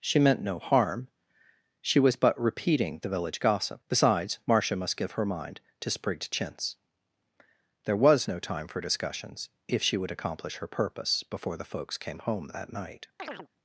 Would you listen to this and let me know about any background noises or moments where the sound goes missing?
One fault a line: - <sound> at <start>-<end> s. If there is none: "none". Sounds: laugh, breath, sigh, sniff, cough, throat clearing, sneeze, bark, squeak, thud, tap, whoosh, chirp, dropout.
- chirp at 13.2-13.5 s